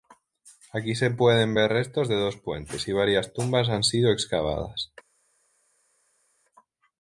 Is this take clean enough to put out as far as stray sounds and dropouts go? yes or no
yes